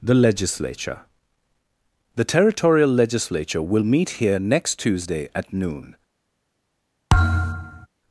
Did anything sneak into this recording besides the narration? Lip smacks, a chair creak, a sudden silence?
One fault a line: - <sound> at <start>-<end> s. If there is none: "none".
- thud at 7.1-7.9 s